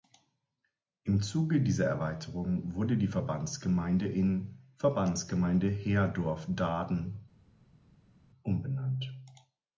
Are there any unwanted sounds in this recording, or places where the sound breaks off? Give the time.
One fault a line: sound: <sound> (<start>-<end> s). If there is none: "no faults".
no faults